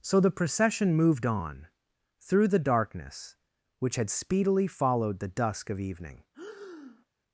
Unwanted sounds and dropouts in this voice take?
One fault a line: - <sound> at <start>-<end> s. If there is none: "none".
- breath at 6.3-7.1 s